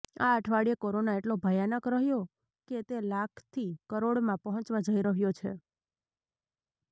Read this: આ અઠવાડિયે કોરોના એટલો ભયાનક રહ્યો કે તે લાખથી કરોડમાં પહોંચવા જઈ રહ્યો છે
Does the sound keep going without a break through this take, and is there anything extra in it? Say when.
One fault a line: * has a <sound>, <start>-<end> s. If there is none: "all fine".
all fine